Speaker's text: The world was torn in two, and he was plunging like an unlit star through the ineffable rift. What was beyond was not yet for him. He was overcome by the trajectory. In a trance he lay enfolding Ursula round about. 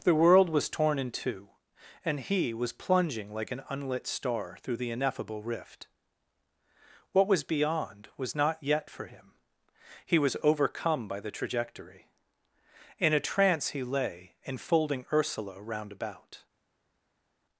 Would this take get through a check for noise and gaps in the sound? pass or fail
pass